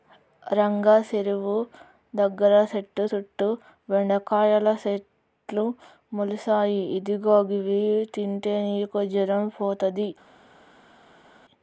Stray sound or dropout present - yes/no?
no